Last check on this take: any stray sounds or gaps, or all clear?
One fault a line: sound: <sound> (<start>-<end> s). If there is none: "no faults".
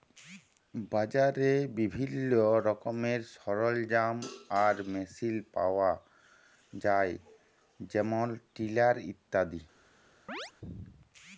sound: chirp (10.3-10.5 s)